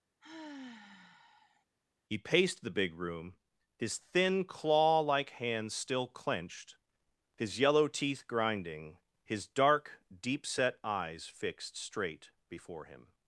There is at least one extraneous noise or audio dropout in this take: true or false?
true